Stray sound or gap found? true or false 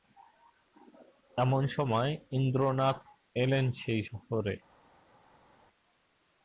false